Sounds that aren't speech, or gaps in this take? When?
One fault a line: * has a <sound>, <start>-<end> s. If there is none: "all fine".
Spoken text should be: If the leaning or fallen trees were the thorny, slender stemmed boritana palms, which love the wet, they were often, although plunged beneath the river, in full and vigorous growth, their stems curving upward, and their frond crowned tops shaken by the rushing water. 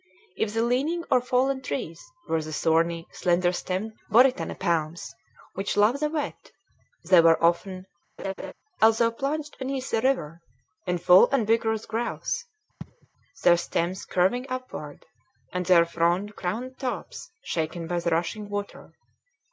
* has a laugh, 8.2-8.5 s
* has a sneeze, 12.8-13.1 s